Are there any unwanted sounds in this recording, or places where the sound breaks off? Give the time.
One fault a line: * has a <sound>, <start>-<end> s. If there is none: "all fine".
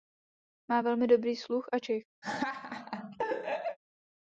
* has a laugh, 2.2-3.8 s